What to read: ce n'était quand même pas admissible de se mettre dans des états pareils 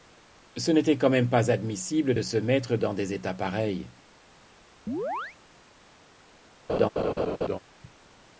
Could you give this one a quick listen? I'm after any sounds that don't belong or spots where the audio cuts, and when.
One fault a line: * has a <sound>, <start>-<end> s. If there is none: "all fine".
* has a chirp, 4.9-5.4 s
* has a laugh, 6.7-7.6 s